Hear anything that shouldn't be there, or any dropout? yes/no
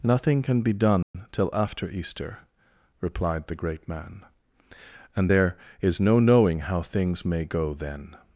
yes